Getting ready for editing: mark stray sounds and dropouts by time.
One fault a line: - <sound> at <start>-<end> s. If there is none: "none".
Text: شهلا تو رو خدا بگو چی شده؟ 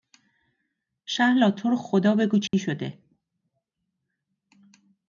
- dropout at 2.5-2.5 s